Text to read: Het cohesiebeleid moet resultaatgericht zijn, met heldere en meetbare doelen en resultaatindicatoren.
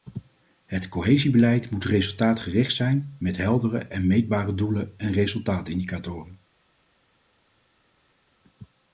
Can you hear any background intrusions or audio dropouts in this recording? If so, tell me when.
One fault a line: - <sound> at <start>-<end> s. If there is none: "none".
none